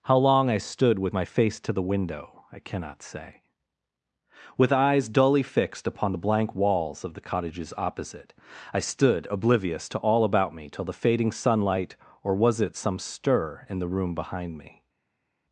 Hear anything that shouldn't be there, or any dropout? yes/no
no